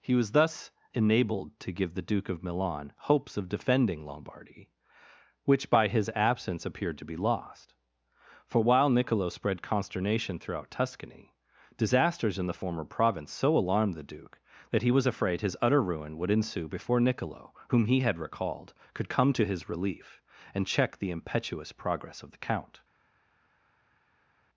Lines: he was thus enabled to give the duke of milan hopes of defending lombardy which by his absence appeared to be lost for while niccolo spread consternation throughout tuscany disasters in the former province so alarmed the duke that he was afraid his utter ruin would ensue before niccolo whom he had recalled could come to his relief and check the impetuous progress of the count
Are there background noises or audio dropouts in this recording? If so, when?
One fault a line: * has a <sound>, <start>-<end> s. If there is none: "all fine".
all fine